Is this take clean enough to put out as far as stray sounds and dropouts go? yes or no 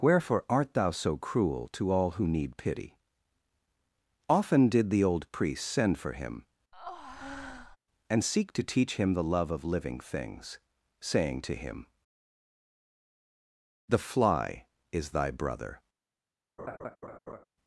no